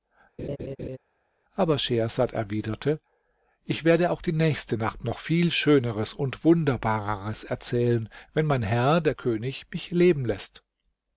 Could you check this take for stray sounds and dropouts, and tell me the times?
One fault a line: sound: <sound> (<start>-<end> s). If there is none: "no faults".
sound: laugh (0.4-1.0 s)